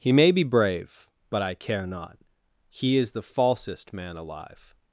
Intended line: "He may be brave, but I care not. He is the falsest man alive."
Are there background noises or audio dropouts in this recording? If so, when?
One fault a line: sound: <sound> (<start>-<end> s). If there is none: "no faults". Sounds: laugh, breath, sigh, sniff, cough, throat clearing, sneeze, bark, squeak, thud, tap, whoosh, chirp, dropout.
no faults